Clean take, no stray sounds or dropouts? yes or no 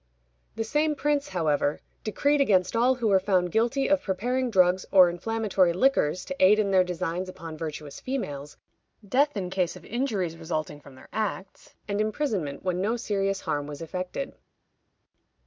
yes